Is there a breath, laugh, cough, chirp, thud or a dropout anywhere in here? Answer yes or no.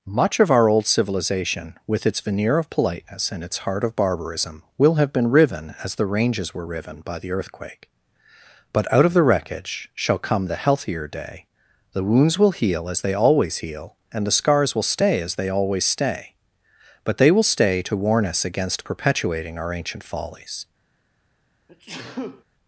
yes